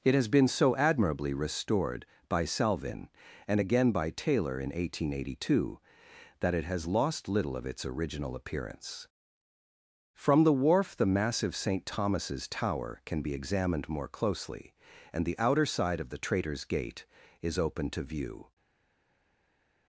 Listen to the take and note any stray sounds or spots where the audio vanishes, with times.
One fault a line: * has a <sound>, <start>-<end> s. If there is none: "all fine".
all fine